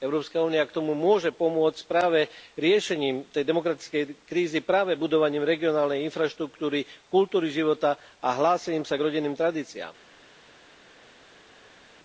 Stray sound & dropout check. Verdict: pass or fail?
pass